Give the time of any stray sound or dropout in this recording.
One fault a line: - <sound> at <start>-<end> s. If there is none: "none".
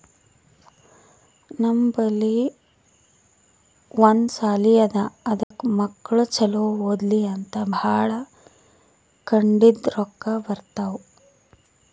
- dropout at 5.4-5.5 s